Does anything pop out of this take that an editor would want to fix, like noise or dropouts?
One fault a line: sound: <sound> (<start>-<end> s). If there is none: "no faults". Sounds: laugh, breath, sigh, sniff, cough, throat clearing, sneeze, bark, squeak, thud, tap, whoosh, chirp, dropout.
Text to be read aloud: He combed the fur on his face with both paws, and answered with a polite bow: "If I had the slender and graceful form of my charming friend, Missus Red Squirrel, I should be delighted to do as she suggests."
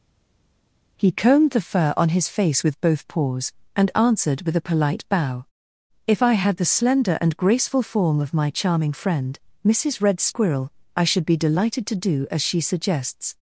no faults